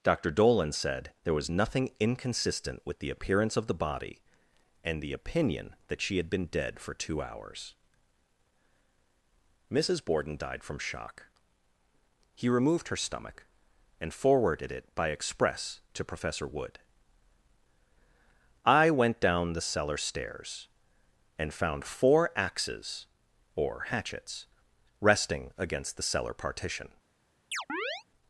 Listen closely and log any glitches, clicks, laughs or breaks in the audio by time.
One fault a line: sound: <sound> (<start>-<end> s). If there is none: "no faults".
sound: chirp (27.5-28.0 s)